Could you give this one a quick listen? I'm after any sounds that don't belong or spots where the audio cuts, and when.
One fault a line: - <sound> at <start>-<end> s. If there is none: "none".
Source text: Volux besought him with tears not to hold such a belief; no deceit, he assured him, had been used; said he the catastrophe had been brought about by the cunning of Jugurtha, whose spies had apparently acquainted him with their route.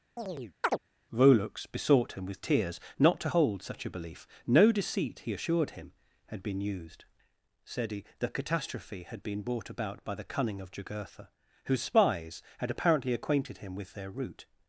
- chirp at 0.2-0.8 s